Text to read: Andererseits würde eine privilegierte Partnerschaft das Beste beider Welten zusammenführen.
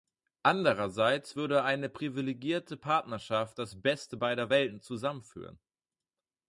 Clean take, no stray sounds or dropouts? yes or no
yes